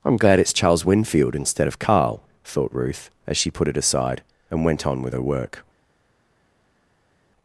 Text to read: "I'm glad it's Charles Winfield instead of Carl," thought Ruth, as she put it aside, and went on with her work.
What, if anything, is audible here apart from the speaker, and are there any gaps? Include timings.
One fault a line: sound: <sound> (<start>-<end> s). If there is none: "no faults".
no faults